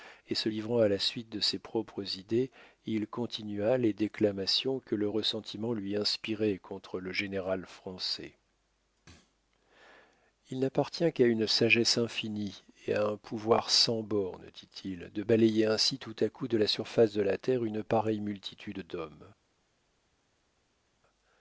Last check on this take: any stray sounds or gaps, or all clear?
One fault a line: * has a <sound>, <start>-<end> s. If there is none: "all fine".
all fine